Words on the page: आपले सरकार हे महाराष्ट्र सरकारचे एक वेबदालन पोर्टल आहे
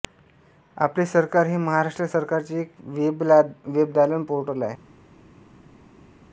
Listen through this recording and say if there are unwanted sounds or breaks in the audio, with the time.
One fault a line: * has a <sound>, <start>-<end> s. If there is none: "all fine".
all fine